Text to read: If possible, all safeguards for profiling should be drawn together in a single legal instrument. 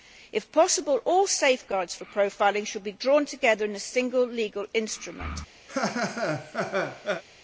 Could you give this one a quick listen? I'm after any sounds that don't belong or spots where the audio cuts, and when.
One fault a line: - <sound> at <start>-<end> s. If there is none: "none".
- laugh at 5.7-7.2 s